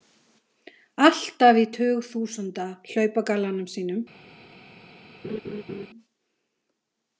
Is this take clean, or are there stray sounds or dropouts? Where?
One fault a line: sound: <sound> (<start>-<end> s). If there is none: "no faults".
sound: laugh (5.2-5.9 s)